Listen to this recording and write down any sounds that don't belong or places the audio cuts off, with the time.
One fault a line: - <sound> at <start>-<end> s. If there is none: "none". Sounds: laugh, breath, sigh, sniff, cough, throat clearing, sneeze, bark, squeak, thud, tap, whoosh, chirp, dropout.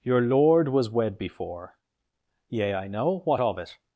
none